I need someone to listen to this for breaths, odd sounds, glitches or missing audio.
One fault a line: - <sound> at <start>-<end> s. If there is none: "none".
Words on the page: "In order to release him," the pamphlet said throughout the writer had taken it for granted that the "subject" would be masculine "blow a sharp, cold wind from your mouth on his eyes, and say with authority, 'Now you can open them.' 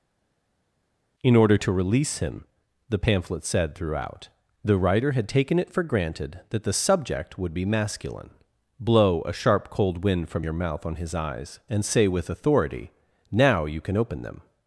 none